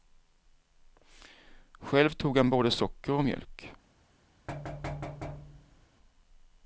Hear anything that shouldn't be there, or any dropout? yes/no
yes